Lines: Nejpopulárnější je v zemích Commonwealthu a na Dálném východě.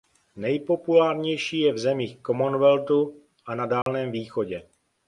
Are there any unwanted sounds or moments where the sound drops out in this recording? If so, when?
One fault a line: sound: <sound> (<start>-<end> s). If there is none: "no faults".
sound: dropout (3.8-3.9 s)